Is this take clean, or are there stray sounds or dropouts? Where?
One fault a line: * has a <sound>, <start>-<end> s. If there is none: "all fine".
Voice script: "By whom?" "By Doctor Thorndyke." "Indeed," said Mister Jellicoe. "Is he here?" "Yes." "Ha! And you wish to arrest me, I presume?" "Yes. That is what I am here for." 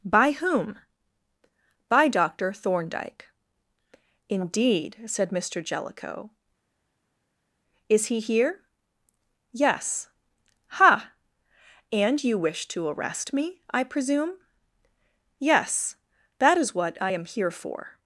all fine